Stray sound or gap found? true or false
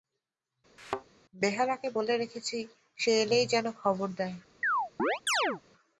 true